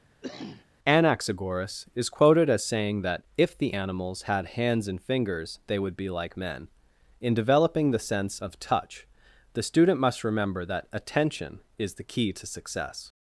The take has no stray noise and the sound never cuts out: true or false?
false